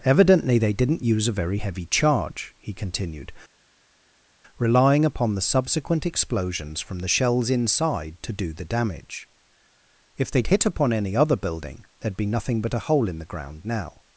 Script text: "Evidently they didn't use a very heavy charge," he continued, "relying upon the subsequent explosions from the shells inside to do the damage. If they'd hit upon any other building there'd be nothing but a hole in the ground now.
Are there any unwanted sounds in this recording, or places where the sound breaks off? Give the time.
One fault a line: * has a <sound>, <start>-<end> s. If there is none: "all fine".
all fine